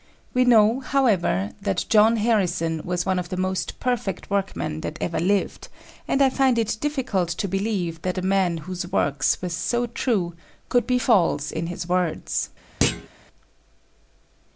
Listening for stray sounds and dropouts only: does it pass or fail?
fail